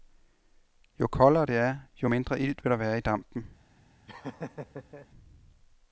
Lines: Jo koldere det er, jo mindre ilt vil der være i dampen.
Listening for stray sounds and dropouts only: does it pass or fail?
fail